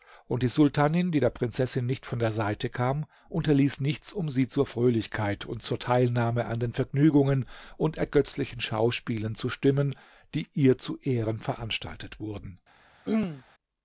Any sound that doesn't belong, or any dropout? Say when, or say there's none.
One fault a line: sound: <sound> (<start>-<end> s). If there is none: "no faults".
sound: throat clearing (13.1-13.4 s)